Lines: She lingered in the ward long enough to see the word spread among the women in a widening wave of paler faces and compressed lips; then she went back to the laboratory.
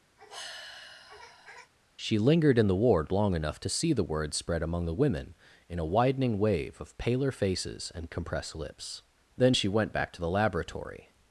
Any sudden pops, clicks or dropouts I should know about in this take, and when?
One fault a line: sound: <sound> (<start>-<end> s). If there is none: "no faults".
sound: sigh (0.2-1.7 s)